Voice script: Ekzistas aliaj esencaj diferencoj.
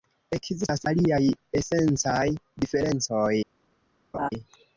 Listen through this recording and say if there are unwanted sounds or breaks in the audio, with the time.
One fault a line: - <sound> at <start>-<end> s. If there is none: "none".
- laugh at 4.1-4.3 s